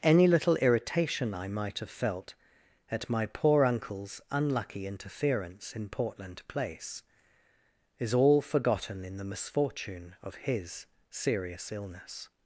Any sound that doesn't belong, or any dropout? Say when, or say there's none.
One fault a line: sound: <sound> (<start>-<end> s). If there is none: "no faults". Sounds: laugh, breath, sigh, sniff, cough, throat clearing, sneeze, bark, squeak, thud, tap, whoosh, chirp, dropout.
no faults